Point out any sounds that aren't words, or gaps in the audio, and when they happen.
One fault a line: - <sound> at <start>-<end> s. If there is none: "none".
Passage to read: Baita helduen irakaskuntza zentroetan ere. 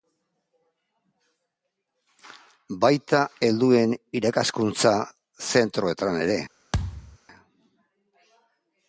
- thud at 6.7-7.2 s